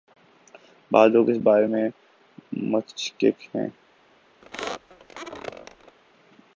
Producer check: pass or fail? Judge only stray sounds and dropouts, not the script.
fail